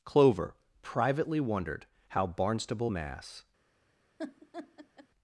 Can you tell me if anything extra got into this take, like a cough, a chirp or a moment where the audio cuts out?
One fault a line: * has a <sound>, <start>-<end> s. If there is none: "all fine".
* has a laugh, 4.2-5.1 s